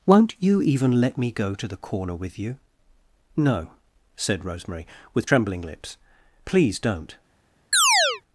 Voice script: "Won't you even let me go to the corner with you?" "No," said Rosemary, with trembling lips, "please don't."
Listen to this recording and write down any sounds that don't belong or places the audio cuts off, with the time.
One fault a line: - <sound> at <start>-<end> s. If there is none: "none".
- chirp at 7.7-8.2 s